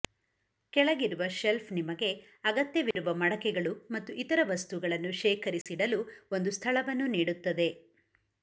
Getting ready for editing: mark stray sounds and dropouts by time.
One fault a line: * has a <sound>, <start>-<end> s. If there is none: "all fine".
* has a dropout, 2.9-3.0 s
* has a dropout, 5.6-5.7 s